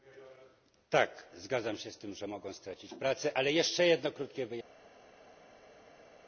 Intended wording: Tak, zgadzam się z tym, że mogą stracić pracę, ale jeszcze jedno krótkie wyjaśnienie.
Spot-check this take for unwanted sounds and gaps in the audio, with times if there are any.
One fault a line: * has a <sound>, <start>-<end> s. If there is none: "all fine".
all fine